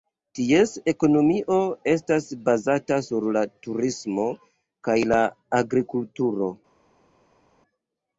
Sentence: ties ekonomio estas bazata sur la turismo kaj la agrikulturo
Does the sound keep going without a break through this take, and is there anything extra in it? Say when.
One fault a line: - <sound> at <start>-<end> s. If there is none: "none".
none